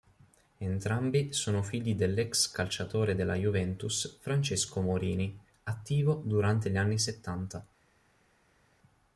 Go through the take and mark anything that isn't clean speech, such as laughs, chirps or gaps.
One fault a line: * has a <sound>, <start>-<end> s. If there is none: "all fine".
all fine